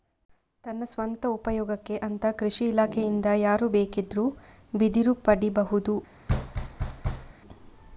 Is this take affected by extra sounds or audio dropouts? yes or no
yes